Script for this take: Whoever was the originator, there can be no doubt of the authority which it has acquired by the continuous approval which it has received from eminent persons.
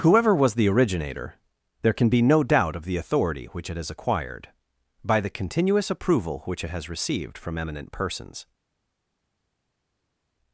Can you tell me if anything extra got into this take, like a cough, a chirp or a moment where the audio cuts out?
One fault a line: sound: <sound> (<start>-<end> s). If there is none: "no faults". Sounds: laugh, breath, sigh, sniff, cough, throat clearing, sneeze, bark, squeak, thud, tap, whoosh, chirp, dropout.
no faults